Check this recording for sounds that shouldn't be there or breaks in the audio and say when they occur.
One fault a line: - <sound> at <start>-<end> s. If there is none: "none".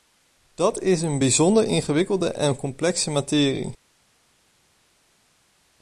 none